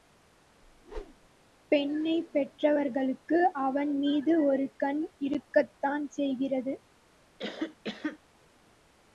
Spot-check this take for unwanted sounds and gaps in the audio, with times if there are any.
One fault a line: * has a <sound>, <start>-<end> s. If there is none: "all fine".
* has a whoosh, 0.6-1.3 s
* has a cough, 7.4-8.2 s